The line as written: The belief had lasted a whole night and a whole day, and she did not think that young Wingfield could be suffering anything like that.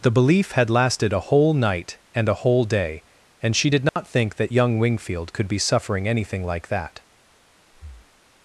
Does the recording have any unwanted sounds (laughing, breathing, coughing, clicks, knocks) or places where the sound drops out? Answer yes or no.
yes